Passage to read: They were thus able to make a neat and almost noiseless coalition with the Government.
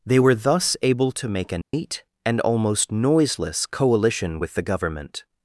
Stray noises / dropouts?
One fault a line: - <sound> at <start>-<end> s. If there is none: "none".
- dropout at 1.6-1.7 s